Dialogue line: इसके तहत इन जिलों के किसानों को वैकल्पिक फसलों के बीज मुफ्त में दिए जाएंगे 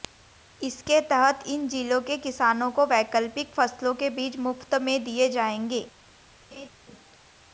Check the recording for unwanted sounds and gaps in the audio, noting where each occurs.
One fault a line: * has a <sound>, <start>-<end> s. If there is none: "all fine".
* has a laugh, 6.5-6.7 s